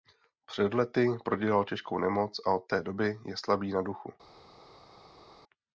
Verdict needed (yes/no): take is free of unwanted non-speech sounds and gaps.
yes